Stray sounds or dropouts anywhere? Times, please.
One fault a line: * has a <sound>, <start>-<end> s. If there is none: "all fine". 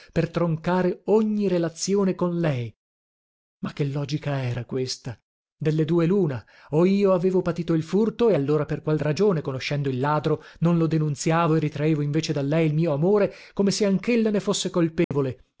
* has a dropout, 15.0-15.1 s